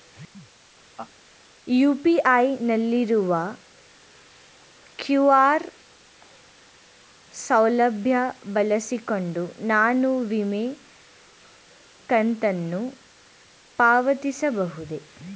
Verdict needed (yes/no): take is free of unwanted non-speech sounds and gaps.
no